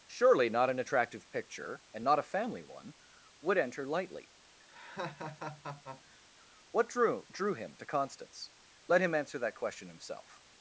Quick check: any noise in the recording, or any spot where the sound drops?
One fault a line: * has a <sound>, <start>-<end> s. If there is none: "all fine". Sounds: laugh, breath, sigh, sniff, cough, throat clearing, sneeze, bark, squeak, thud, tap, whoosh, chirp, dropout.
* has a laugh, 4.7-6.2 s